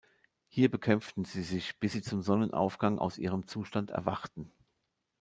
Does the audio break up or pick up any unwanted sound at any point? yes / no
no